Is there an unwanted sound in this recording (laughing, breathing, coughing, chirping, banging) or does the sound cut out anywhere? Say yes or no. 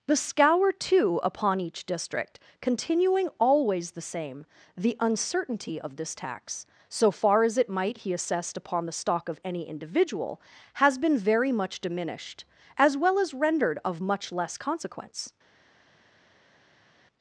no